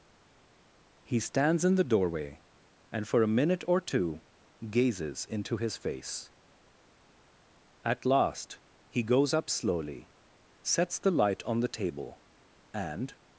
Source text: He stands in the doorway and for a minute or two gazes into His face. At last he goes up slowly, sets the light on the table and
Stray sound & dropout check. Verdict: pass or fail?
pass